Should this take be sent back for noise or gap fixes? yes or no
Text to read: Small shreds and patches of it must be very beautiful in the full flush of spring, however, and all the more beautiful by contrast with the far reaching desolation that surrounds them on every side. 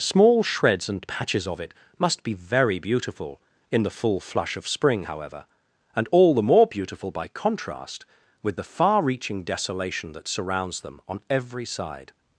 no